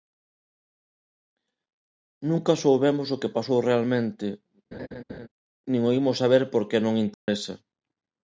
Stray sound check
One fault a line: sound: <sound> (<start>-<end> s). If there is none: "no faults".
sound: laugh (4.7-5.3 s)
sound: dropout (7.1-7.3 s)